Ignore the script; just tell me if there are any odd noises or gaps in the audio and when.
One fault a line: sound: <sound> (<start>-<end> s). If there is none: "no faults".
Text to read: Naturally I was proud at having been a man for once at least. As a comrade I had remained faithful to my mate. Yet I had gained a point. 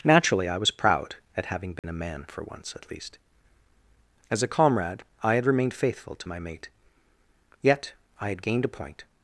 sound: dropout (1.8-1.8 s)